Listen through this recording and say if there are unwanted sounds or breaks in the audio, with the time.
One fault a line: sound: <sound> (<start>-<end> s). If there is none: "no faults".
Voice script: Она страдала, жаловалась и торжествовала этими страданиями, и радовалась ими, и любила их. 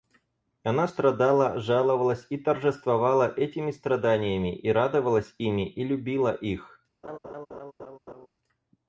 sound: laugh (7.0-8.3 s)